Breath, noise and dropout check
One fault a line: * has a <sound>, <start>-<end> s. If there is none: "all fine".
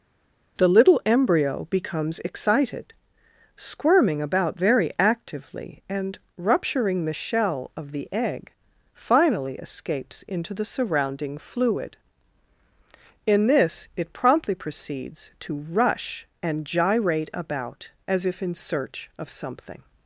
all fine